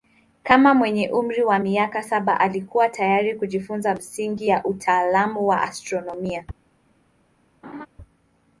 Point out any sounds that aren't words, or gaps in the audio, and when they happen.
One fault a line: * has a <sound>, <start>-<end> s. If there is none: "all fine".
* has a laugh, 7.6-7.9 s